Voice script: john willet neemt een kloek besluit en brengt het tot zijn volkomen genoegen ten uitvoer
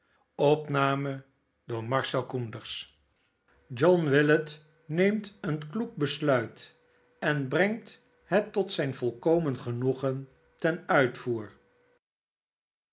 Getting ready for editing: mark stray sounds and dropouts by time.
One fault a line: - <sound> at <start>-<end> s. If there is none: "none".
none